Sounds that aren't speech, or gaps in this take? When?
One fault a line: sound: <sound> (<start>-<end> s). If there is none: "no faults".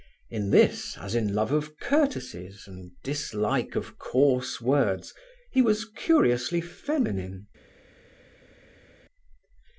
no faults